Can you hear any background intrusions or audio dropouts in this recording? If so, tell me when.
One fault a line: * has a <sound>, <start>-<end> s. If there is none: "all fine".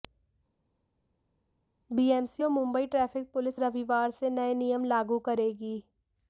all fine